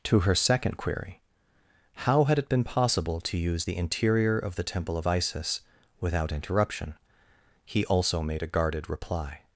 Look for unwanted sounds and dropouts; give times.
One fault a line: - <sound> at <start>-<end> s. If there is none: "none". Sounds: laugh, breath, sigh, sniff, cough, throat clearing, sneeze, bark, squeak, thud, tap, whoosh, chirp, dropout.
none